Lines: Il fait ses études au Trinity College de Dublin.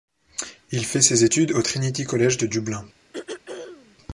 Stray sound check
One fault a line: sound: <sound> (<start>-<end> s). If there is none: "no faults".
sound: throat clearing (3.1-4.0 s)